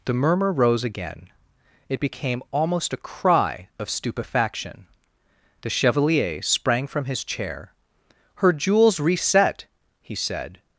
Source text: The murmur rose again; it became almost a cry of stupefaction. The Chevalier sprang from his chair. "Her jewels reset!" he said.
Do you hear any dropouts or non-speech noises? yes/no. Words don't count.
no